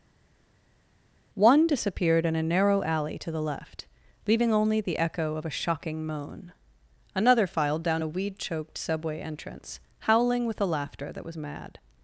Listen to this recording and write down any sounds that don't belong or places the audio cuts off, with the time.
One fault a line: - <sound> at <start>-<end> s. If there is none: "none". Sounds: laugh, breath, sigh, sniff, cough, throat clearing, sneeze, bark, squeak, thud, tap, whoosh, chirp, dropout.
none